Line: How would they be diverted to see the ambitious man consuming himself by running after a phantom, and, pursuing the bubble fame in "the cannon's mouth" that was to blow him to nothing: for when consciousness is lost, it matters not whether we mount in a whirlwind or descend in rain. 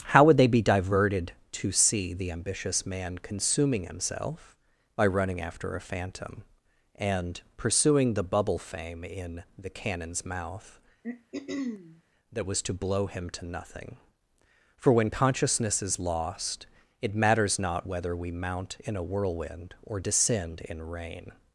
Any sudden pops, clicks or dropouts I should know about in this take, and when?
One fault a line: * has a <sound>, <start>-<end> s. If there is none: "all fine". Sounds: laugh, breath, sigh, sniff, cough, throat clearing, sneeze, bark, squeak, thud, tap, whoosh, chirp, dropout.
* has a throat clearing, 11.0-12.0 s